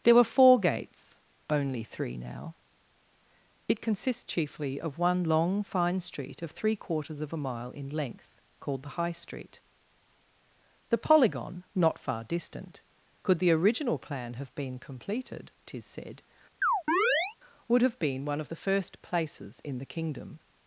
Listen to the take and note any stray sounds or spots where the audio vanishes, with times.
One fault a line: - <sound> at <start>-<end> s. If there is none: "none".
- chirp at 16.6-17.4 s